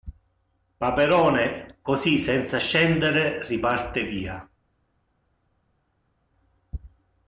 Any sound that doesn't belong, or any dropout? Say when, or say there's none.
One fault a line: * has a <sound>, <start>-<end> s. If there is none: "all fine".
all fine